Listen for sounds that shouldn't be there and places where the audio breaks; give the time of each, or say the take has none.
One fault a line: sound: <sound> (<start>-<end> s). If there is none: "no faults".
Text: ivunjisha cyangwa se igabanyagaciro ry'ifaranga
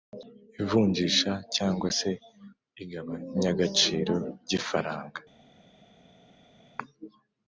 no faults